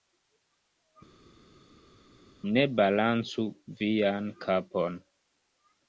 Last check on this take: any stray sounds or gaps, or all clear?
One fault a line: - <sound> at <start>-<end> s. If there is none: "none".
none